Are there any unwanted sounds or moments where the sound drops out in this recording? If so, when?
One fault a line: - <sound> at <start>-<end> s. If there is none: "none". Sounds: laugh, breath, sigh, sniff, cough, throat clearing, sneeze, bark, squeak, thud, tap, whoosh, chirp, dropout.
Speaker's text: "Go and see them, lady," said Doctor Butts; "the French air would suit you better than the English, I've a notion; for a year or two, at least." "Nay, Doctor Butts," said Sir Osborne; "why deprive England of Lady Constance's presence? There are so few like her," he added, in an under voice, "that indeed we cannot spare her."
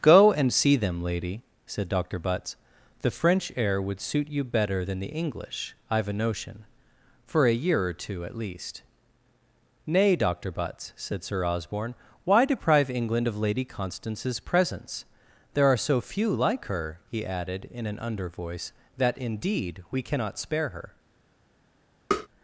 - tap at 22.1-22.3 s